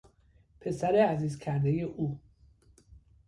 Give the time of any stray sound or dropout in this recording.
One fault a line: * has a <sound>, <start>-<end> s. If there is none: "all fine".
all fine